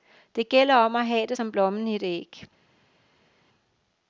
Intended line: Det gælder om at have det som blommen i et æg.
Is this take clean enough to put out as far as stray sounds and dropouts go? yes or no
yes